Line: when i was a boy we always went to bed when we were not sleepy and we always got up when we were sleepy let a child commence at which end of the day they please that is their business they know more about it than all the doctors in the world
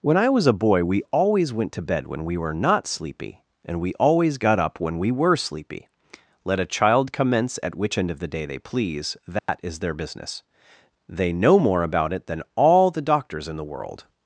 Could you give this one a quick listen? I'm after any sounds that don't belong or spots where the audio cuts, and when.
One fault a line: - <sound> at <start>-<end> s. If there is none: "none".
- dropout at 9.4-9.5 s